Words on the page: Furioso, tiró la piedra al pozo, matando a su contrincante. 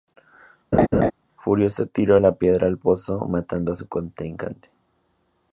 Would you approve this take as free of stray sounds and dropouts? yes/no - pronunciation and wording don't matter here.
no